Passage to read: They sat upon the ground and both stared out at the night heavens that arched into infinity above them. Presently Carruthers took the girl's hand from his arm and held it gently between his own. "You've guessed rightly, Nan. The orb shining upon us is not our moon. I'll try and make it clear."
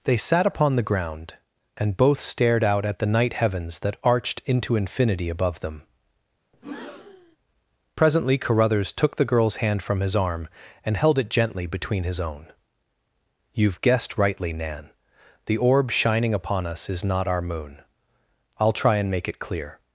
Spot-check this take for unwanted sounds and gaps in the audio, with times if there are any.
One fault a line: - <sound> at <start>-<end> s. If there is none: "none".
- breath at 6.5-7.4 s